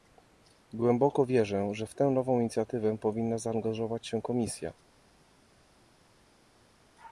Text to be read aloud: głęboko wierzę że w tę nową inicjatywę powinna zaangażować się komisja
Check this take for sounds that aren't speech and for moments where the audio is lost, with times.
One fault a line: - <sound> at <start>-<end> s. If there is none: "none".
none